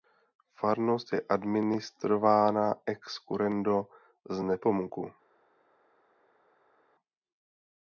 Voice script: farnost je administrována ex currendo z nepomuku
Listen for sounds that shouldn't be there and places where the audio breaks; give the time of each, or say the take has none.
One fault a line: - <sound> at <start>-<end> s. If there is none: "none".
none